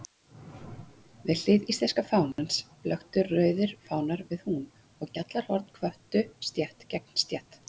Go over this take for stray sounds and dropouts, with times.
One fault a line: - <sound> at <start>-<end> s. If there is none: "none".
- dropout at 2.3-2.4 s